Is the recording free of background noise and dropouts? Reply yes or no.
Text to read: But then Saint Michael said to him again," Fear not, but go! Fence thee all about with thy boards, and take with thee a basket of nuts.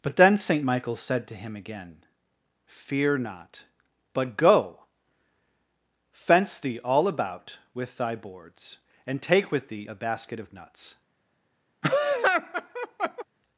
no